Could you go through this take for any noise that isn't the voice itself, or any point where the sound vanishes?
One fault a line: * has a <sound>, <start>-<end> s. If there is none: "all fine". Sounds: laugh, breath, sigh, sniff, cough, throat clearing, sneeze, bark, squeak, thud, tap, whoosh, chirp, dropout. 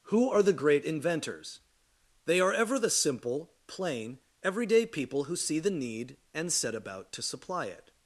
all fine